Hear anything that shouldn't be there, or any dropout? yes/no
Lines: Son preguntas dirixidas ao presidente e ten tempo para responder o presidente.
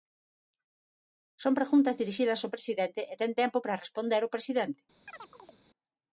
yes